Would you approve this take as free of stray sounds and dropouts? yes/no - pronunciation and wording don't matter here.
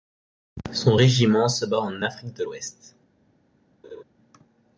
no